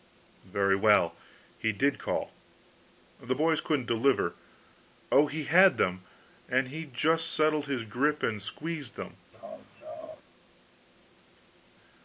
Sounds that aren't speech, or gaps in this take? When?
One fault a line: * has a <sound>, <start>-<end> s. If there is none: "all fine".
* has a laugh, 9.3-10.2 s